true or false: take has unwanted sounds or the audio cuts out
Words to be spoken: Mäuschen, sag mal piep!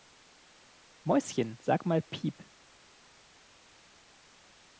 false